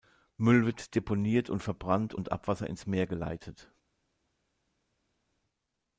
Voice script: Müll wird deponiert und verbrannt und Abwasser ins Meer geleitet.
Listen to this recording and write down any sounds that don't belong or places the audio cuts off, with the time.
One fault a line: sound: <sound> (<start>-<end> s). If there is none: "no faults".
no faults